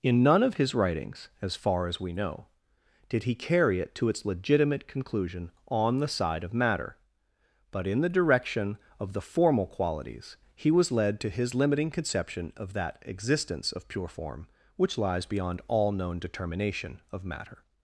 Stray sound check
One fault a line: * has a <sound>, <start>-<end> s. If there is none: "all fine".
all fine